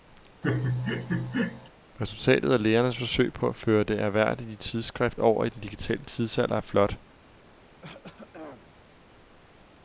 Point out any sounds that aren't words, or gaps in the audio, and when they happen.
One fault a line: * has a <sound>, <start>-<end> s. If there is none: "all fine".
* has a laugh, 0.4-1.7 s
* has a throat clearing, 7.8-8.8 s